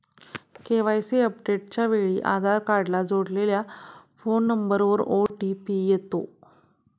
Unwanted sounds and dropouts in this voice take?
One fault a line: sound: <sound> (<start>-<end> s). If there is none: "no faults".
sound: dropout (5.3-5.3 s)